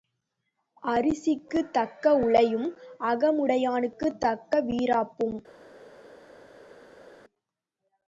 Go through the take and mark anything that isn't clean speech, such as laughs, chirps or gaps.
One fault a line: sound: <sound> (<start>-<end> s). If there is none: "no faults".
no faults